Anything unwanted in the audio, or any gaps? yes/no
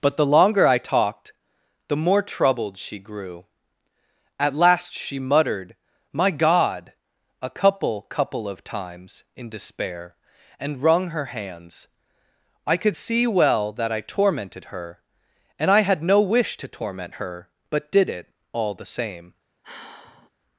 yes